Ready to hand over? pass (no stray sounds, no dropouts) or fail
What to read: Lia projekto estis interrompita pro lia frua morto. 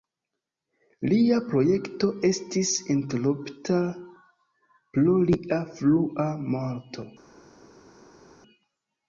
pass